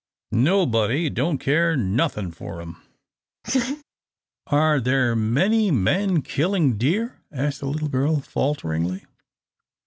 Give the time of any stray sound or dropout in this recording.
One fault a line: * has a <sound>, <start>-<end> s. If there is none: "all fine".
* has a laugh, 3.4-3.8 s